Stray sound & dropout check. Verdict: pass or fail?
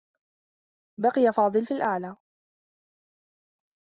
pass